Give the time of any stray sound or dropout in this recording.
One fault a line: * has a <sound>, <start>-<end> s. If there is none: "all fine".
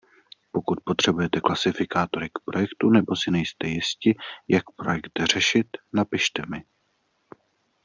all fine